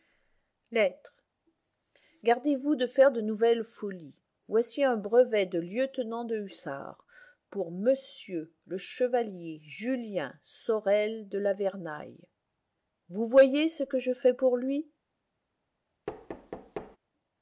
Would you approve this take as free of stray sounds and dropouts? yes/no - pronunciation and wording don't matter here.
no